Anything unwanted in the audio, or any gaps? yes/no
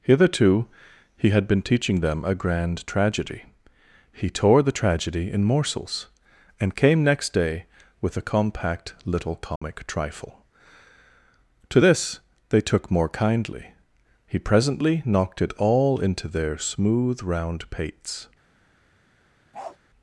yes